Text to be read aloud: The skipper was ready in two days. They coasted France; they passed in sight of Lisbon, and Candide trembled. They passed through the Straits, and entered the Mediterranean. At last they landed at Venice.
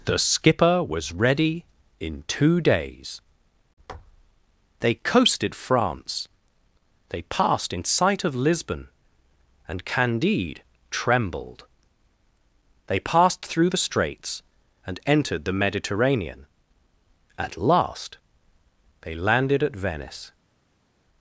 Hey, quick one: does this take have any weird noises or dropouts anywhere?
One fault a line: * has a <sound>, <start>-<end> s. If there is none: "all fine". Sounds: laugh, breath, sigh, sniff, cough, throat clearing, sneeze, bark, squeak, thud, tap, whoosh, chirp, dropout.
all fine